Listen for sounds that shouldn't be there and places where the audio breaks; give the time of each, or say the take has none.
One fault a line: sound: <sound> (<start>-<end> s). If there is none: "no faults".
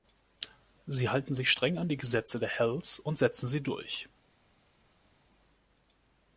no faults